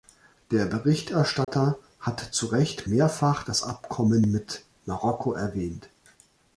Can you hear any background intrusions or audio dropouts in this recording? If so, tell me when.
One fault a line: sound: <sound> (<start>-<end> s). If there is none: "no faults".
sound: dropout (1.4-1.5 s)